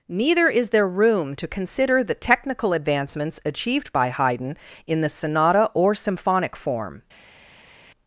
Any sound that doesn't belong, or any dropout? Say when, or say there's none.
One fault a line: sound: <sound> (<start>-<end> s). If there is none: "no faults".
no faults